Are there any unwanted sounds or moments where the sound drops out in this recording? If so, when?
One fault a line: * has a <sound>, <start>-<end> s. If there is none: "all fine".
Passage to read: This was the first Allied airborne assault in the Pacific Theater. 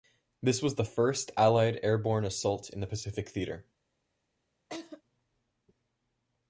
* has a laugh, 4.7-5.0 s